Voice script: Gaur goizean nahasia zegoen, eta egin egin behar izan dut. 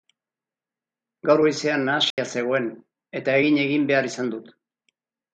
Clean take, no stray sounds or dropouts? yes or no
no